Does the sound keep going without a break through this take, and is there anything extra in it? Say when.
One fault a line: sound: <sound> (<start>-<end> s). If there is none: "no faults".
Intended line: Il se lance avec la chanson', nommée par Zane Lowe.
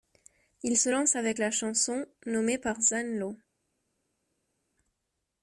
no faults